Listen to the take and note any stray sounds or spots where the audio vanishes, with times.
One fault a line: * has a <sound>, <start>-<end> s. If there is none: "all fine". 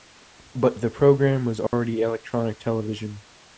* has a dropout, 1.7-1.7 s